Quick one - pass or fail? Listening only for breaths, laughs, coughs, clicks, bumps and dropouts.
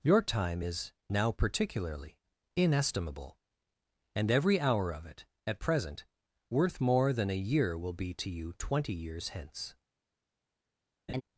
fail